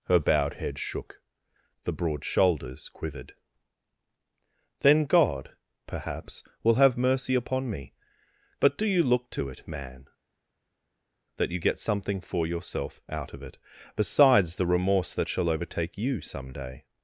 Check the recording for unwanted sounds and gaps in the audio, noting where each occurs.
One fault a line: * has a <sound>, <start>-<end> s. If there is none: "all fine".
all fine